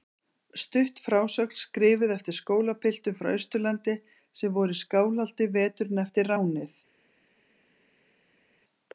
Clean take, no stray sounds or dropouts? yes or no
yes